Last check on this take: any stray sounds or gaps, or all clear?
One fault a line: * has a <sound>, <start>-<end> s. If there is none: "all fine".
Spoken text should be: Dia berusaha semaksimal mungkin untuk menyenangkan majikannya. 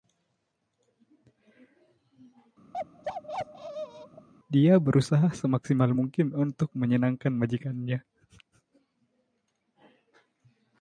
* has a bark, 2.7-4.3 s